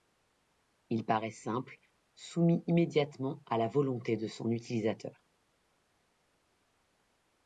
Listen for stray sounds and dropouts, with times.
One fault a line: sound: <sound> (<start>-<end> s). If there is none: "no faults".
no faults